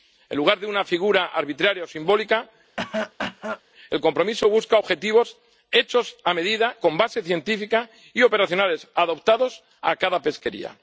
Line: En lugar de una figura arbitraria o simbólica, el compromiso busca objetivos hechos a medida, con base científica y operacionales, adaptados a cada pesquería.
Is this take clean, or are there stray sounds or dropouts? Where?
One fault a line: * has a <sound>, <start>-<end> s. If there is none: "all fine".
* has a cough, 2.8-3.6 s